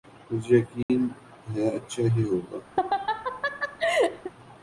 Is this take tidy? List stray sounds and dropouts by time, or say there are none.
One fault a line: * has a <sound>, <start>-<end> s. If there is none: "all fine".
* has a dropout, 0.8-0.9 s
* has a laugh, 2.8-4.3 s